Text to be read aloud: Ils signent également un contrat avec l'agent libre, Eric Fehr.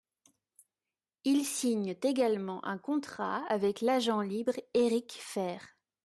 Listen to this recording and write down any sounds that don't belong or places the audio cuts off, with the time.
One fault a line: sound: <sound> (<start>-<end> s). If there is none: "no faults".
no faults